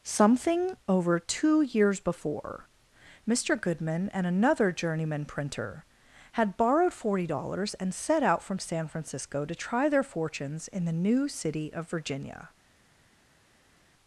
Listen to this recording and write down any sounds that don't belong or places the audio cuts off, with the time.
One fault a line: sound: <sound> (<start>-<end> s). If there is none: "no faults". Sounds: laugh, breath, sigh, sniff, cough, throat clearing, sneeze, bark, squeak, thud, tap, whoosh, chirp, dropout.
no faults